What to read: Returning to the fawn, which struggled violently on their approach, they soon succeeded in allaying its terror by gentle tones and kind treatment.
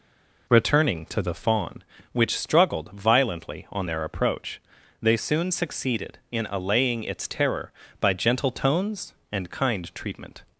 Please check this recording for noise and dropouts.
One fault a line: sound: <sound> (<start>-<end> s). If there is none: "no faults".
no faults